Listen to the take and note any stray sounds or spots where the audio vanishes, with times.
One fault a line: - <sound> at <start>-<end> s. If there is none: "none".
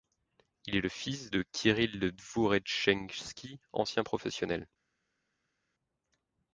none